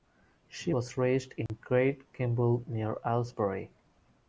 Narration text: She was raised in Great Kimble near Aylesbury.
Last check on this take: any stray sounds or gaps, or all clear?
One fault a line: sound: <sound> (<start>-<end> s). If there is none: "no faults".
sound: dropout (1.5-1.5 s)